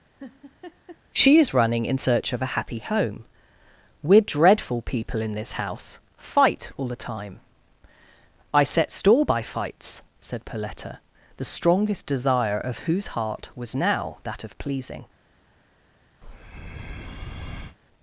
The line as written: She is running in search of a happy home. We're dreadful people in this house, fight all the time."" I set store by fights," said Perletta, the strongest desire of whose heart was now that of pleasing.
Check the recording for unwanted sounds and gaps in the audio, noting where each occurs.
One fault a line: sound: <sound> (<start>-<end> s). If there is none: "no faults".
sound: laugh (0.2-1.0 s)
sound: breath (16.2-17.8 s)